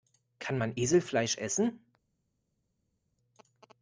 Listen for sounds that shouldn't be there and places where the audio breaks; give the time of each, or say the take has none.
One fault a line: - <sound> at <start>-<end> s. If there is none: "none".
none